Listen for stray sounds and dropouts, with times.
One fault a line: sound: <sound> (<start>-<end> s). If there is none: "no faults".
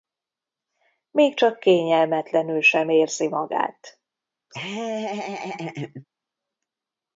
sound: laugh (4.5-6.0 s)